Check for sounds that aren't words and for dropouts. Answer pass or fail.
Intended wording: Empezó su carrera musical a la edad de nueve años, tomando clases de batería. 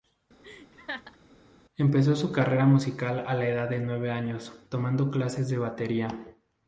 fail